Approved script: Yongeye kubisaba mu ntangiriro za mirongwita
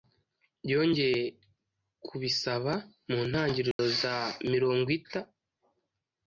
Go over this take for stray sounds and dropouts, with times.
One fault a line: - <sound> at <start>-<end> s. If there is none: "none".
- dropout at 3.7-3.8 s